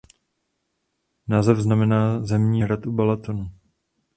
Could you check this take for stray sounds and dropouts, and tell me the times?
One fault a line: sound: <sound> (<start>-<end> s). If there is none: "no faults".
no faults